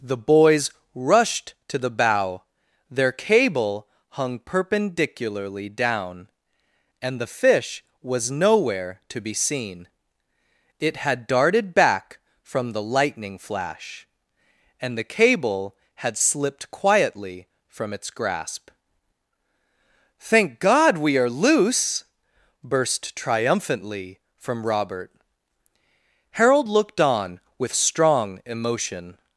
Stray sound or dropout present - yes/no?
no